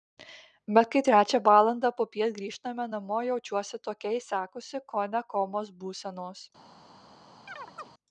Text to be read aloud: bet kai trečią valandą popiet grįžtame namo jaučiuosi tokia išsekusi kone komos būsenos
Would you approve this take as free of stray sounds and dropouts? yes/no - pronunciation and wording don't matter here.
no